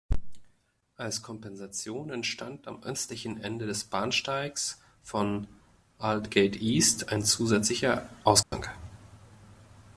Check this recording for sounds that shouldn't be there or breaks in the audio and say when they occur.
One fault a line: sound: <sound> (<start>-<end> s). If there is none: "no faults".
sound: dropout (8.4-8.5 s)